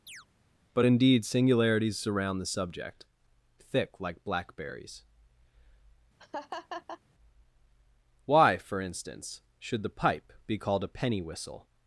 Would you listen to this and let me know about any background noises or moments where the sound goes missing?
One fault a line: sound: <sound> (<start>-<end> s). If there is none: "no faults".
sound: chirp (0.1-0.3 s)
sound: laugh (6.2-7.0 s)